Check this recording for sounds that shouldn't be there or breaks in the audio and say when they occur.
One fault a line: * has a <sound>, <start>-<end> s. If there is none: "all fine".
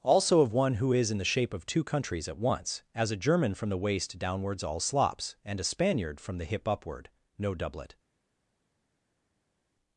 all fine